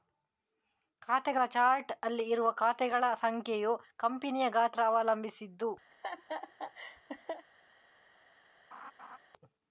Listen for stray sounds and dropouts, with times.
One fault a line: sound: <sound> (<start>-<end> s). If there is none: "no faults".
sound: laugh (5.9-7.5 s)
sound: laugh (8.7-9.2 s)